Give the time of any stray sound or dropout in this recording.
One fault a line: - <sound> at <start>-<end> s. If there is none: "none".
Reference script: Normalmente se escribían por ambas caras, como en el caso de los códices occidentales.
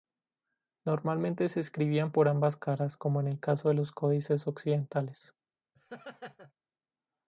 - laugh at 5.7-6.5 s